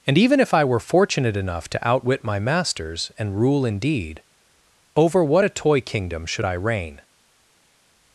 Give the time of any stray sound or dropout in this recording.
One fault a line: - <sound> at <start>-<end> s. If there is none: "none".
none